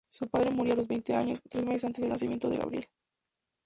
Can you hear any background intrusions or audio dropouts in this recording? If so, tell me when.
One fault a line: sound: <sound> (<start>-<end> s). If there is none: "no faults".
no faults